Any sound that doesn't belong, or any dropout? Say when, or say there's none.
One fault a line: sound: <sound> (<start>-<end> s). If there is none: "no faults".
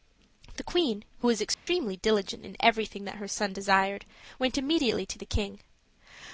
sound: dropout (1.5-1.7 s)